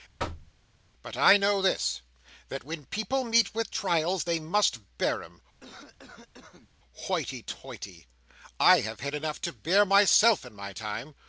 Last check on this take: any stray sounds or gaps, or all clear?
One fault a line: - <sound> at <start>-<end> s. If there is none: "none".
- thud at 0.2-0.5 s
- cough at 5.6-6.7 s